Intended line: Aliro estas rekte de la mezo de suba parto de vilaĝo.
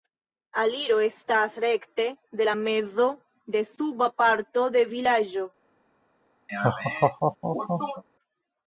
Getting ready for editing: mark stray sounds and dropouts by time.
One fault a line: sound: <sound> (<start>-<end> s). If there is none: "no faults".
sound: laugh (6.5-8.0 s)